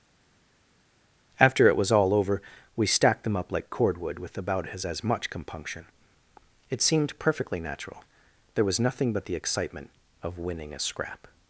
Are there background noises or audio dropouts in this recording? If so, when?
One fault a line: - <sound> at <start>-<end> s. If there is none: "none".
none